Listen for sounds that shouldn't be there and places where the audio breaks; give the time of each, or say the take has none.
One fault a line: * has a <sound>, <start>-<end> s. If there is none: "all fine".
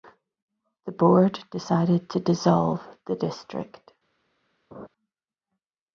* has a laugh, 4.7-4.9 s